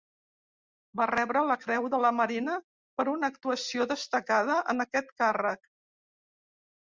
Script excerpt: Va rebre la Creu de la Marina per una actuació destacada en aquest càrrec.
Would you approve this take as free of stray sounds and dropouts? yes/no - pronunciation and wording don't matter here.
yes